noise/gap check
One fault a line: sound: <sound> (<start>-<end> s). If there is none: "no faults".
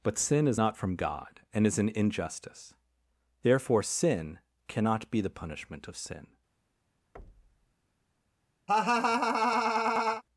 sound: thud (7.1-7.7 s)
sound: laugh (8.7-10.2 s)